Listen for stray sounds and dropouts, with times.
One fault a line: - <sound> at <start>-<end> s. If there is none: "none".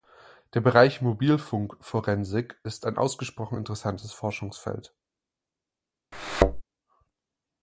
- thud at 6.1-6.6 s